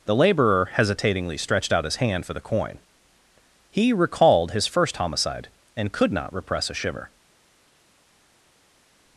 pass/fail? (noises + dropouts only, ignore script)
pass